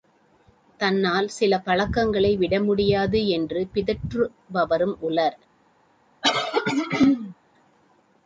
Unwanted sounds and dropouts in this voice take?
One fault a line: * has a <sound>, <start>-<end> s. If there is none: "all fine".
* has a throat clearing, 6.2-7.3 s